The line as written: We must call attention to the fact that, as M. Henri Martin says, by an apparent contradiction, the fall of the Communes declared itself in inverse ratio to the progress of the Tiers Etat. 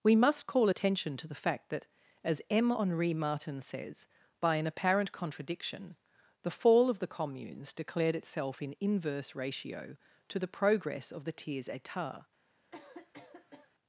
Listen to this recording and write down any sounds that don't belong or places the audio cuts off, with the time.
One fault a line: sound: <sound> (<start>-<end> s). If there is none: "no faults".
sound: cough (12.7-13.7 s)